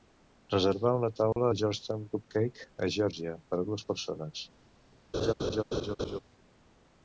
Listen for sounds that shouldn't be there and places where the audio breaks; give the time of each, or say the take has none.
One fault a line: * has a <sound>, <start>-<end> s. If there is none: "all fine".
* has a dropout, 1.3-1.4 s
* has a laugh, 5.1-6.2 s